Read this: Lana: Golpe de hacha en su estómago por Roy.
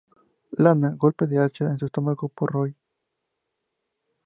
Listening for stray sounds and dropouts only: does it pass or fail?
pass